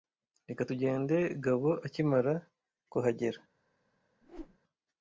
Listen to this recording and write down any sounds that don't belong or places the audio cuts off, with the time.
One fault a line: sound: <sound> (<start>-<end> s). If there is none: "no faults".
sound: whoosh (4.2-4.6 s)